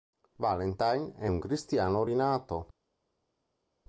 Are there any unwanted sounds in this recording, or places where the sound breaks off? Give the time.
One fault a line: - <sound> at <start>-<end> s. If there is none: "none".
none